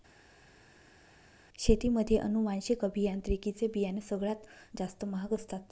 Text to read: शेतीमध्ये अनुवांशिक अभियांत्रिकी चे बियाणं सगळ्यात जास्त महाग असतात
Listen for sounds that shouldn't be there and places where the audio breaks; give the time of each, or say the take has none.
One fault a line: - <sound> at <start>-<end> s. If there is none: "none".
none